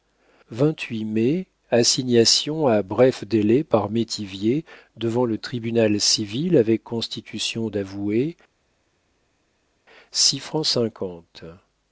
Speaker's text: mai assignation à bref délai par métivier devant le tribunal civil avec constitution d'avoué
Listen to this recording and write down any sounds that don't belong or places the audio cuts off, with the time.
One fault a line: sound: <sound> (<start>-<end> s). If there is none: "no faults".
no faults